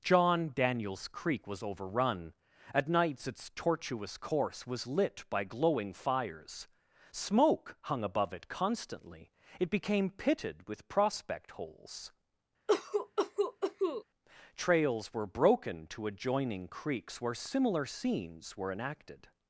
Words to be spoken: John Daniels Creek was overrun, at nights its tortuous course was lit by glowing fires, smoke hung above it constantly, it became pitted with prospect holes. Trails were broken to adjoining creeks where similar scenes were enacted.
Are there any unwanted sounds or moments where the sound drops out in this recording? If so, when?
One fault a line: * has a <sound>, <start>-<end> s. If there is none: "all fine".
* has a cough, 12.7-14.0 s